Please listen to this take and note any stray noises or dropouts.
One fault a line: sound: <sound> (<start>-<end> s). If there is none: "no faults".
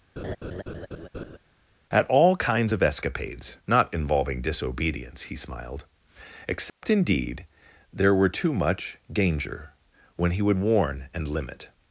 sound: laugh (0.2-1.4 s)
sound: dropout (6.7-6.8 s)